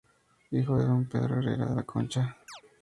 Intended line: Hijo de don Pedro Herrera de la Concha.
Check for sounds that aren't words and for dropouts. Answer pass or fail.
fail